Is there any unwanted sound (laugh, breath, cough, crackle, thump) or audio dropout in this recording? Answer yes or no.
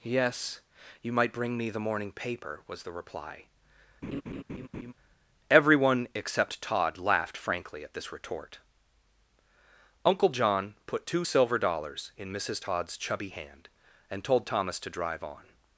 yes